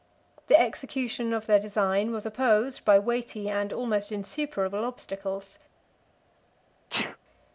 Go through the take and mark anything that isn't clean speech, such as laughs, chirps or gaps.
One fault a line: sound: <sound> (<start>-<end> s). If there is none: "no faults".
sound: sneeze (6.9-7.2 s)